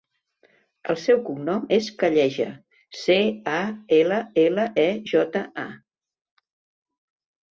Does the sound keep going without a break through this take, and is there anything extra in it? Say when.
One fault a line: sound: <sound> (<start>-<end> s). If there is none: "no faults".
no faults